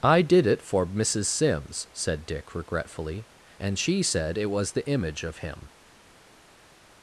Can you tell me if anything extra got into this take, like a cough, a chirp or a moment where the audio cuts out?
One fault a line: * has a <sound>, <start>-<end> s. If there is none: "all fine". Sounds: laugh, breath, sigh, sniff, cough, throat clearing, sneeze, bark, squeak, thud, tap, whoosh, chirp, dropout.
all fine